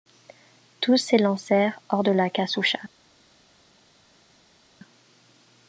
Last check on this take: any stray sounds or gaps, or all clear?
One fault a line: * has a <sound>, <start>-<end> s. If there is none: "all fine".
all fine